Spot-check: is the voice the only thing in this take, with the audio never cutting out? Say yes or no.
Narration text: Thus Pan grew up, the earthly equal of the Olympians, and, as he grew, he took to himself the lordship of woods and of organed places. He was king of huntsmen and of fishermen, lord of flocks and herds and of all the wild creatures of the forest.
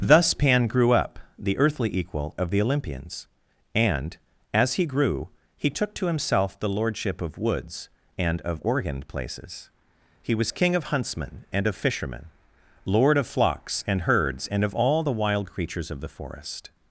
yes